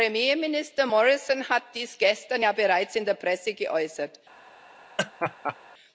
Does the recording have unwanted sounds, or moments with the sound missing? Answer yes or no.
yes